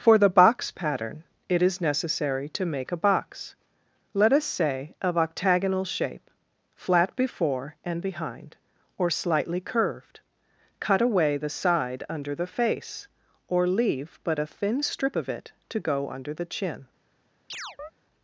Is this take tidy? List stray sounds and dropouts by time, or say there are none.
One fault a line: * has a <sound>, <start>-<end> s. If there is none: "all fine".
* has a chirp, 17.5-17.9 s